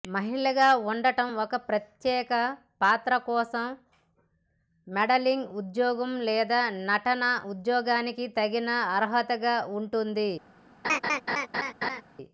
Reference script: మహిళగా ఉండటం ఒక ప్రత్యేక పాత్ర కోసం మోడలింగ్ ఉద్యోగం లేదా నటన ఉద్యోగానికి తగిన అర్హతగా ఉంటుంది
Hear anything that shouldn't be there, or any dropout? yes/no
yes